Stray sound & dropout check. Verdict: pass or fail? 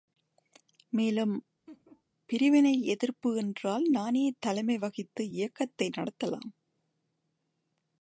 fail